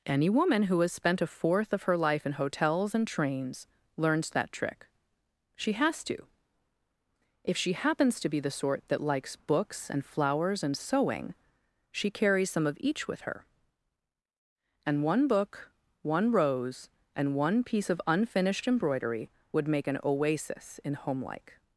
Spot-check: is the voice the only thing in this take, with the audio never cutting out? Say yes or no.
yes